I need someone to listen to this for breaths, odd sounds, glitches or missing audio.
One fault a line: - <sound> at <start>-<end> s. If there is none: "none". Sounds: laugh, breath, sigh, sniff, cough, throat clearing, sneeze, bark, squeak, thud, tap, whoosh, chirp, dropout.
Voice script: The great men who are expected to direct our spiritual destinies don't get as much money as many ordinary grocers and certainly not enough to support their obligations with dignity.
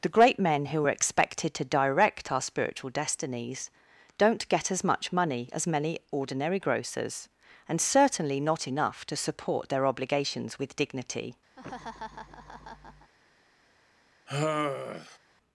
- laugh at 11.6-13.1 s
- sigh at 14.3-15.2 s